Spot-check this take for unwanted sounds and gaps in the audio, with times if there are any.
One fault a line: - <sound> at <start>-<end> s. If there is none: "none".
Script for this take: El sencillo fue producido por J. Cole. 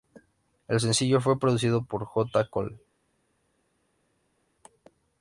none